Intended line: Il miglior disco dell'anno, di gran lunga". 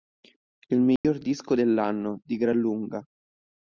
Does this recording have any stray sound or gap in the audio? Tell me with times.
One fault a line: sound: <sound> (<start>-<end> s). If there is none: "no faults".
sound: dropout (1.0-1.0 s)